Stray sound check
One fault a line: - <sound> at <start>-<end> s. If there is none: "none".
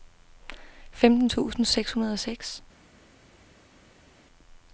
none